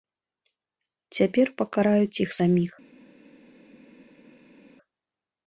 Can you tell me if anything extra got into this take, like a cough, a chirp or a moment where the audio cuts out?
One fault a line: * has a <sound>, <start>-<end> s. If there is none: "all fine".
all fine